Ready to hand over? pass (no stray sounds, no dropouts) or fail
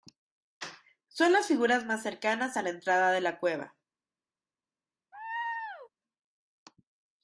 fail